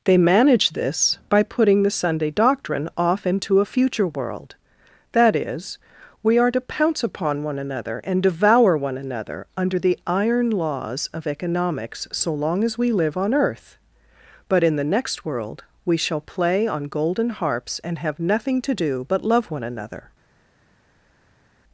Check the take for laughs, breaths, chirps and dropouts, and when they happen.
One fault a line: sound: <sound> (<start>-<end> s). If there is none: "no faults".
no faults